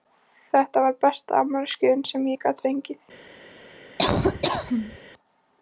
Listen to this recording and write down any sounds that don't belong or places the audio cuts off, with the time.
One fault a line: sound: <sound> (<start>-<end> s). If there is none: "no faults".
sound: laugh (4.0-5.0 s)